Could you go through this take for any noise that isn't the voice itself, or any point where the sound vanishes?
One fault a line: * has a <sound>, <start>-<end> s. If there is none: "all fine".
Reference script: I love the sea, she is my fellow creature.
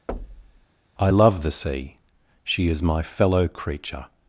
* has a thud, 0.1-0.7 s